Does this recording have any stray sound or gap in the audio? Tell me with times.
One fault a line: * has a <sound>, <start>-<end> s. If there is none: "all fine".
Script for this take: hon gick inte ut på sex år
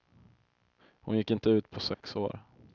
* has a dropout, 1.9-2.0 s